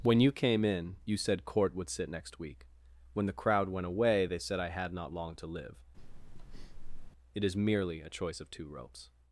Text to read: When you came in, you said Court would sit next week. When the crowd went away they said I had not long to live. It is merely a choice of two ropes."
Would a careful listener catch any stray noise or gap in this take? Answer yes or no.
yes